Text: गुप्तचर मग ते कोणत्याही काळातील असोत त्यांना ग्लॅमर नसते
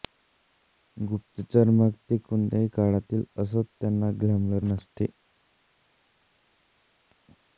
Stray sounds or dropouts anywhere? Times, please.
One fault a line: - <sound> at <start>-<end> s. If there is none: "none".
none